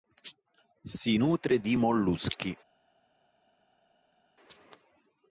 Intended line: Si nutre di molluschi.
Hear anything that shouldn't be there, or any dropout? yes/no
no